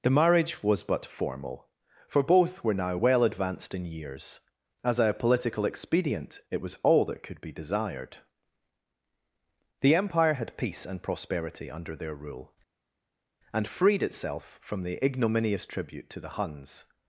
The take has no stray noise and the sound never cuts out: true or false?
true